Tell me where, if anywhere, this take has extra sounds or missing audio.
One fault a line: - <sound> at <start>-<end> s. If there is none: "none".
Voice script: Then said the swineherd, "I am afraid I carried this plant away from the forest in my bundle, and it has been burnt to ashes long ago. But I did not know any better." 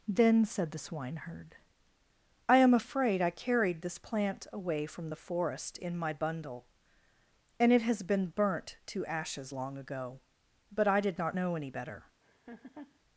- laugh at 12.2-13.0 s